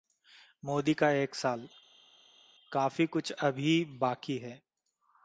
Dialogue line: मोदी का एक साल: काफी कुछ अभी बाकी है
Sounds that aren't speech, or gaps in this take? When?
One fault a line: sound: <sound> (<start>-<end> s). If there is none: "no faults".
no faults